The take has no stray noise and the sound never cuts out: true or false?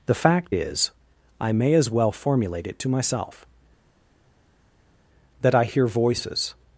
true